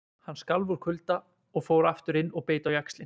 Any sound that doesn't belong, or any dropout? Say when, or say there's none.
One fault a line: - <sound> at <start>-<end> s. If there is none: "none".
none